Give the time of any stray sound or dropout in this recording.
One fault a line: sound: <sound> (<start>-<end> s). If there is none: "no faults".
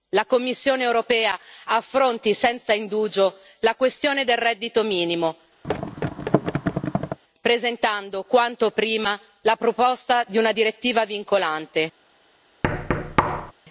sound: thud (5.6-7.2 s)
sound: thud (12.6-13.5 s)